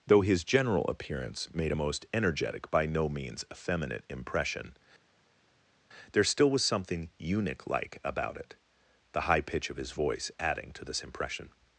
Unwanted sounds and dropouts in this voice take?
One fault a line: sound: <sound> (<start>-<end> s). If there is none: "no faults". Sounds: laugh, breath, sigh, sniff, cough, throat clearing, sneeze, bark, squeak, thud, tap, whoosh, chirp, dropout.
no faults